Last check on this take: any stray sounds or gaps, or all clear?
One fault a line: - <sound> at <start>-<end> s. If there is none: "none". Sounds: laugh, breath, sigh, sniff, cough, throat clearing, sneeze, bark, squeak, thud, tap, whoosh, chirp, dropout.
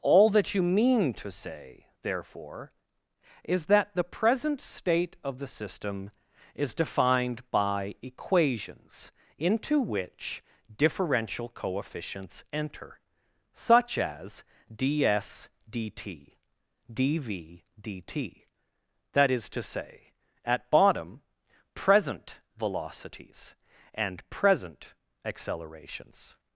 none